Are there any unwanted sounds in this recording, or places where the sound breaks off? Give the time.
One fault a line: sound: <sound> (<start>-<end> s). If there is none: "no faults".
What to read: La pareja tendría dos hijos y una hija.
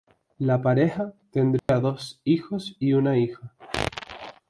sound: dropout (1.6-1.7 s)